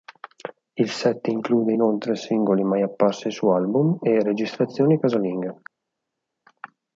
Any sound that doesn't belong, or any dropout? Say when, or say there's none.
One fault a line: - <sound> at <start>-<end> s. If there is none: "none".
none